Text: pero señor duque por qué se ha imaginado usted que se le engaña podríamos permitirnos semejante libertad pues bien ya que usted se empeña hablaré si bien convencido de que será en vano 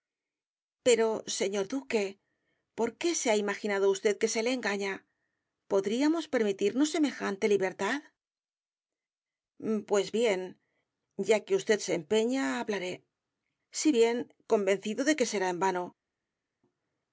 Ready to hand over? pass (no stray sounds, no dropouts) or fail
pass